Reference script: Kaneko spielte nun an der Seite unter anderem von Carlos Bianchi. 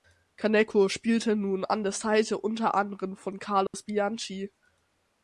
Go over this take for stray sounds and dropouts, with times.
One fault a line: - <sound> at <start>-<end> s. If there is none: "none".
- dropout at 3.7-3.7 s